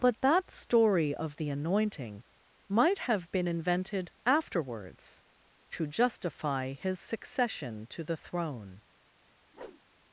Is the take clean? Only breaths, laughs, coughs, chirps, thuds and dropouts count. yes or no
no